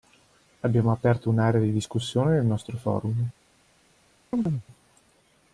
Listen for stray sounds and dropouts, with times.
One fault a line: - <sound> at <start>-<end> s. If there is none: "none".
- chirp at 4.3-4.6 s